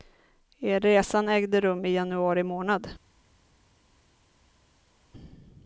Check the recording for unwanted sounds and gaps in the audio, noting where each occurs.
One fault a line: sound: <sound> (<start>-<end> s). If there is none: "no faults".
no faults